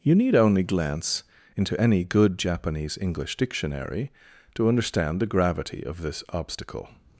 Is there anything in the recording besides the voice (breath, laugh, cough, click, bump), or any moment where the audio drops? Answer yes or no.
no